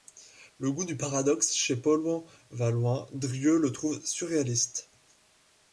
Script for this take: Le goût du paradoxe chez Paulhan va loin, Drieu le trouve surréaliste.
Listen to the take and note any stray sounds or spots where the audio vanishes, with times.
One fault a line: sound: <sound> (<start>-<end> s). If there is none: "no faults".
no faults